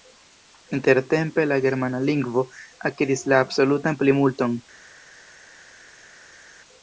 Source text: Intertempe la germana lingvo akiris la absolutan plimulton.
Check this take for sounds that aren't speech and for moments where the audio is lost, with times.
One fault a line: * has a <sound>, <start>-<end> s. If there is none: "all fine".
all fine